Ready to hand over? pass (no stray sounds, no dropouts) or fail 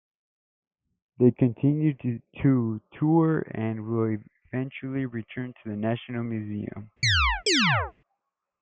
fail